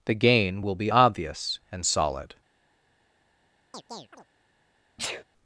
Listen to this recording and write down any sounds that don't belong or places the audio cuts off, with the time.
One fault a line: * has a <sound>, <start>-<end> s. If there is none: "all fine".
* has a chirp, 3.7-4.3 s
* has a sneeze, 5.0-5.2 s